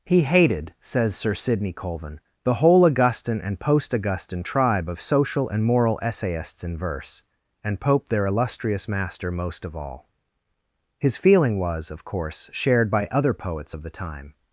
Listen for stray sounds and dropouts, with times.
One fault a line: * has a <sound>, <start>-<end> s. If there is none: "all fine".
all fine